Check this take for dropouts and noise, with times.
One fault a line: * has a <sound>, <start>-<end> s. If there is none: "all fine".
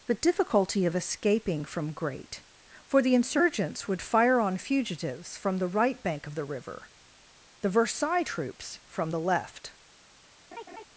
* has a laugh, 10.5-10.8 s